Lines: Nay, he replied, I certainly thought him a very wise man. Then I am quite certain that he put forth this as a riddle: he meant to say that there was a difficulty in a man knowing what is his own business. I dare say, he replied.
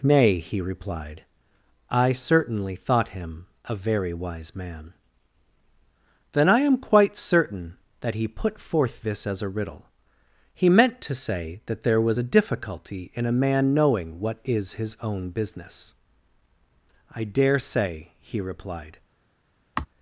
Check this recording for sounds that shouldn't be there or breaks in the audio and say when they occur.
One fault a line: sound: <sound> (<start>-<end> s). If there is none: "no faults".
sound: sigh (19.8-19.9 s)